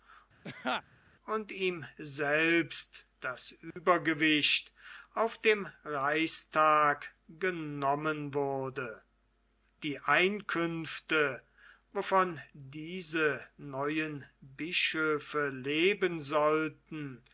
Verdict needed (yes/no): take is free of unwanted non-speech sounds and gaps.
no